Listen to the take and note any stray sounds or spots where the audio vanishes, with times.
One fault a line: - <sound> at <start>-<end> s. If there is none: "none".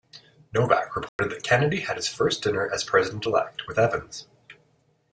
- dropout at 1.1-1.2 s